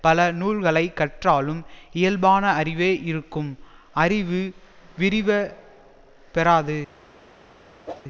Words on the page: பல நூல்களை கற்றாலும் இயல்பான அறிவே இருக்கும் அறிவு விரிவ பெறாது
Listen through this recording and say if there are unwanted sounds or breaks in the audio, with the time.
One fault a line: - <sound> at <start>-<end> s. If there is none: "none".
- whoosh at 7.9-8.0 s